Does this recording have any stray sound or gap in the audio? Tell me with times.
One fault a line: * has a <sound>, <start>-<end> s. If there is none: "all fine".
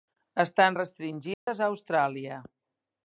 * has a dropout, 1.3-1.5 s